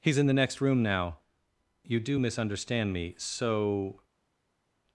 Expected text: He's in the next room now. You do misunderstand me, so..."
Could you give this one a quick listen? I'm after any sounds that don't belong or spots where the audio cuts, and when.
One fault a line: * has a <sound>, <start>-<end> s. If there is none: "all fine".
all fine